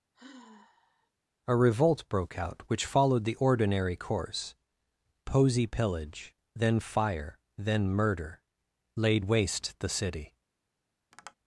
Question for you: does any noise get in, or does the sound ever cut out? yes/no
yes